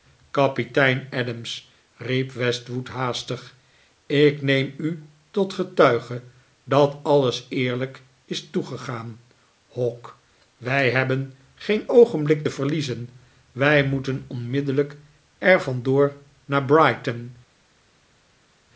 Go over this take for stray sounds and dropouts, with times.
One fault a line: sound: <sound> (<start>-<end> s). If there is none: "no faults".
no faults